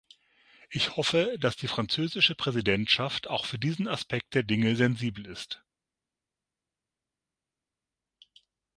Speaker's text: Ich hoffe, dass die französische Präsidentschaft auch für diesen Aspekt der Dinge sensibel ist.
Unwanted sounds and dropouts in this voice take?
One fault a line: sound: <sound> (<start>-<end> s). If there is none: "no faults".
no faults